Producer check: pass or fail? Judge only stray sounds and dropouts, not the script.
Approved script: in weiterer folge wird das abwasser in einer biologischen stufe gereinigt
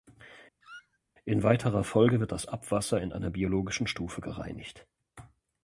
fail